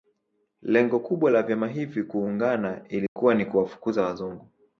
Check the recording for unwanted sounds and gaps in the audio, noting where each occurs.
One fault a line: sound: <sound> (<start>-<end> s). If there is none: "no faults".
sound: dropout (3.1-3.2 s)